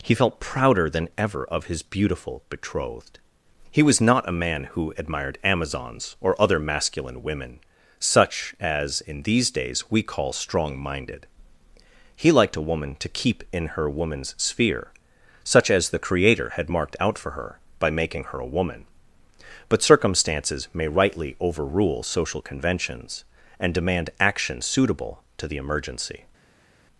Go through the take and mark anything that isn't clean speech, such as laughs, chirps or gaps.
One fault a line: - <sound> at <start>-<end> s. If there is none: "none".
none